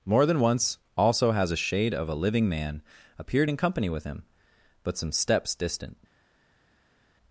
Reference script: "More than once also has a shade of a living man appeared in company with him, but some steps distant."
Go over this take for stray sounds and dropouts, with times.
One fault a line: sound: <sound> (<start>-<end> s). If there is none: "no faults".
no faults